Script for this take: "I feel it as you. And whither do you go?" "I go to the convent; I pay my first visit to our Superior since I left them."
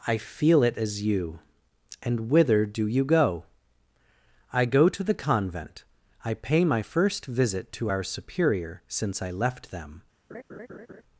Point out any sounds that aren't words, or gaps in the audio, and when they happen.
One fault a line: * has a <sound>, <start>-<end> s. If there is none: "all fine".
* has a laugh, 10.3-11.0 s